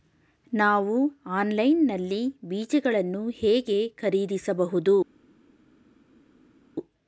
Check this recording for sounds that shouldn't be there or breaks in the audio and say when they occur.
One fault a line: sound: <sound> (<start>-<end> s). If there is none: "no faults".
no faults